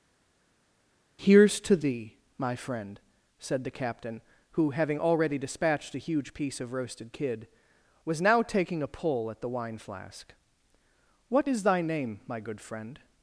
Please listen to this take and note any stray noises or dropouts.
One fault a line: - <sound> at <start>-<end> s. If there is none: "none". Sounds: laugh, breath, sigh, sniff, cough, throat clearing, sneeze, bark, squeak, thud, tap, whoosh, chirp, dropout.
none